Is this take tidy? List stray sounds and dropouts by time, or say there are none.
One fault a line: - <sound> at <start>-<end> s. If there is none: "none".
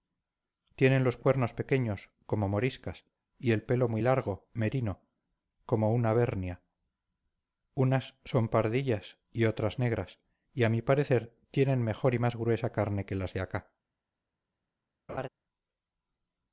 - laugh at 15.1-15.3 s